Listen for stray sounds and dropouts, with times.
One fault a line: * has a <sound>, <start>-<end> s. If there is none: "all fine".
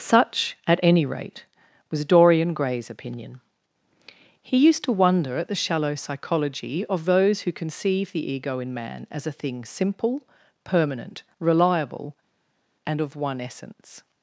all fine